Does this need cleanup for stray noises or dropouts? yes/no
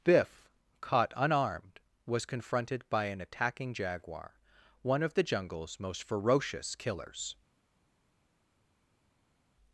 no